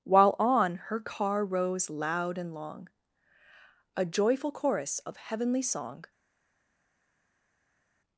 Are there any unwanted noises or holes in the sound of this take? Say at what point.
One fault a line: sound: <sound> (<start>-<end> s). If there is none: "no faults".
no faults